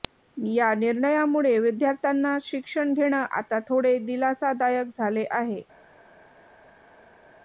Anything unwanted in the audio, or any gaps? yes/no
no